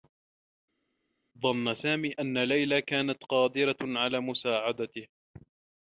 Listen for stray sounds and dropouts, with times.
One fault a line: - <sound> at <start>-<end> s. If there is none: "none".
none